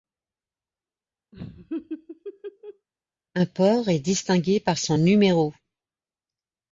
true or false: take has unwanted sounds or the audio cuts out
true